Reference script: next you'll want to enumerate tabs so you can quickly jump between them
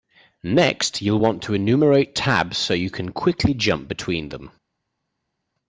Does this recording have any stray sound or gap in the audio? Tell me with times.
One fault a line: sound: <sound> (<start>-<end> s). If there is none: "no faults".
no faults